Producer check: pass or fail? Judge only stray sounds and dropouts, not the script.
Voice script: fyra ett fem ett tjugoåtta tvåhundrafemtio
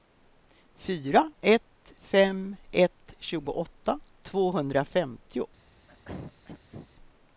fail